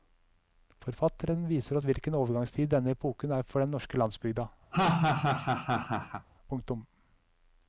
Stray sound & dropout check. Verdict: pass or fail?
fail